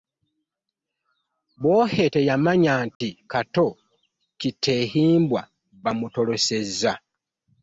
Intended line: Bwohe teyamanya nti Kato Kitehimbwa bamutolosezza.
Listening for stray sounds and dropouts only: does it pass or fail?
fail